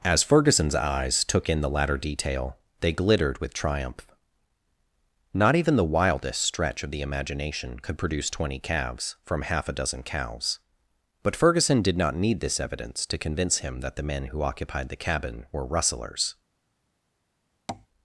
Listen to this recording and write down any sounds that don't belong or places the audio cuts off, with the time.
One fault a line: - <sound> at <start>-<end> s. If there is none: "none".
- tap at 17.7-17.9 s